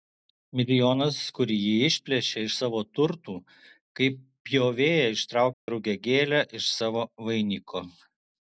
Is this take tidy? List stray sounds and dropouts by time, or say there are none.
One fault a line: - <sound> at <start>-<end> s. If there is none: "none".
- dropout at 5.5-5.7 s